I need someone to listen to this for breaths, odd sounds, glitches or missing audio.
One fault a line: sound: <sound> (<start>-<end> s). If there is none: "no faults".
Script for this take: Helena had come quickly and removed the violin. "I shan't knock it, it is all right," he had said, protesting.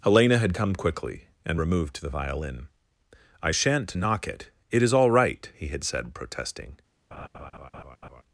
sound: laugh (7.1-8.2 s)